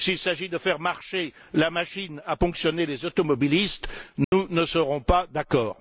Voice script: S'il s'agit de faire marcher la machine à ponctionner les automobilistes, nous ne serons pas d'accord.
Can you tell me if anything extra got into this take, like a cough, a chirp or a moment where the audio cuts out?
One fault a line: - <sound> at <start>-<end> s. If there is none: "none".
- dropout at 4.2-4.3 s